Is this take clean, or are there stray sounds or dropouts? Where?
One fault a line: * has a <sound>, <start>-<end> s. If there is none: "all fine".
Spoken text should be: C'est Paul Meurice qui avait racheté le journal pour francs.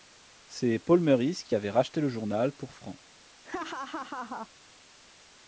* has a laugh, 3.4-4.5 s